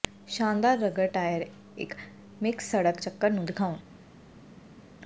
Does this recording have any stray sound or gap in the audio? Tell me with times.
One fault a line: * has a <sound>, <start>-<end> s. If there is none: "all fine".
all fine